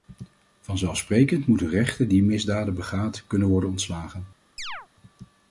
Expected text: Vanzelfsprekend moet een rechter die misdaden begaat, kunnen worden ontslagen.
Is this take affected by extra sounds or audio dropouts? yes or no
yes